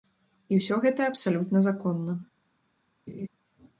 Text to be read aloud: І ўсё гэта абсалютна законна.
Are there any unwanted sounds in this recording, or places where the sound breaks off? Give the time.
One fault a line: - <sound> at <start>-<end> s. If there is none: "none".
- laugh at 3.1-3.3 s